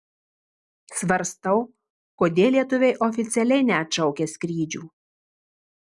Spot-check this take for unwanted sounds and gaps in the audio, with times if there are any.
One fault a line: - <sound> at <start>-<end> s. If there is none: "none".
none